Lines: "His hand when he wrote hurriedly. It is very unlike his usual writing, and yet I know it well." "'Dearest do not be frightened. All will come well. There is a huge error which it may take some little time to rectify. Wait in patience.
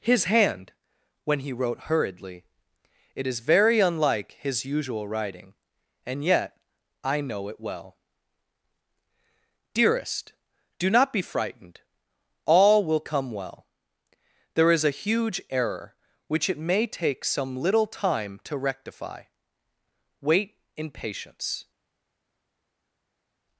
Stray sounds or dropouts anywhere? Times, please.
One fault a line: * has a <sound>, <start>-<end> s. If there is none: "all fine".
all fine